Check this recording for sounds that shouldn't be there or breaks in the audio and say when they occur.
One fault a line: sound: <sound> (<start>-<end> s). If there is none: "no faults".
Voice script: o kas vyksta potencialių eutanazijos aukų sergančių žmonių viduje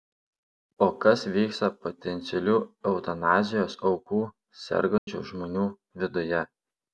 sound: dropout (5.0-5.1 s)